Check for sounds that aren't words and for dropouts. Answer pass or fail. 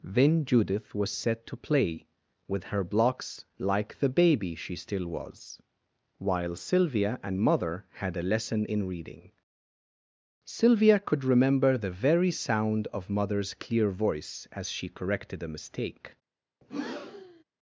fail